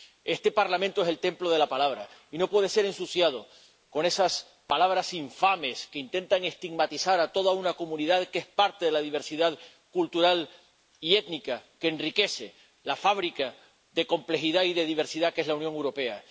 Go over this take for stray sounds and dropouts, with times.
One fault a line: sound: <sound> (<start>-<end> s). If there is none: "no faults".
no faults